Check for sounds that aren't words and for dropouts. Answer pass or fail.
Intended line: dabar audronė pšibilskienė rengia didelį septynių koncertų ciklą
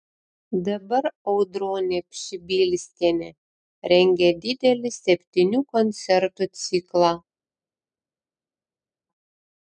pass